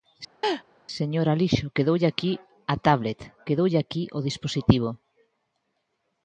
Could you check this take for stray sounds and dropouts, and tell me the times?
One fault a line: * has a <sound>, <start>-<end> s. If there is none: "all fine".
* has a laugh, 0.4-0.6 s